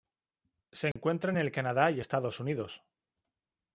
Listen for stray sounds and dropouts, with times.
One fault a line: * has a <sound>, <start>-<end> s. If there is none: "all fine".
* has a dropout, 0.9-1.0 s